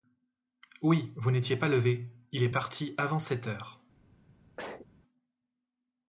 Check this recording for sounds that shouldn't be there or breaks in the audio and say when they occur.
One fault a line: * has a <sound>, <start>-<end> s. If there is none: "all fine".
* has a sneeze, 4.6-4.9 s